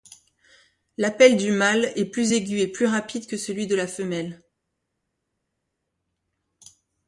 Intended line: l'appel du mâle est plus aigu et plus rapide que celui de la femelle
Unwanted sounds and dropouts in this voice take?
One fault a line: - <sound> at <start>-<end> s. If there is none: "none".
none